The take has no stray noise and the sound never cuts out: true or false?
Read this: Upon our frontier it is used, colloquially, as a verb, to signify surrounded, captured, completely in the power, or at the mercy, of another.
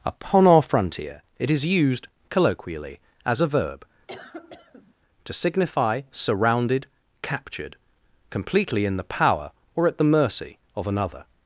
false